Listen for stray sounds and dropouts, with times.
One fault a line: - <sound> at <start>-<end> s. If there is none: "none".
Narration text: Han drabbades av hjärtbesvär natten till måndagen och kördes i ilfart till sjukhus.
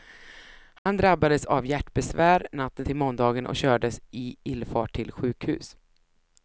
- dropout at 0.8-0.9 s